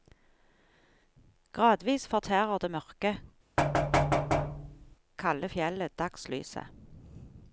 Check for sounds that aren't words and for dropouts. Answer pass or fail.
fail